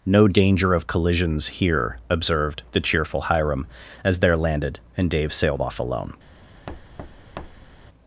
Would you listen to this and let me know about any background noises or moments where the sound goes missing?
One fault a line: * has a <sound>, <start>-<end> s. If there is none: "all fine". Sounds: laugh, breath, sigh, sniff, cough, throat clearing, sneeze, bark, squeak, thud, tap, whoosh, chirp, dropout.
* has a thud, 6.7-7.7 s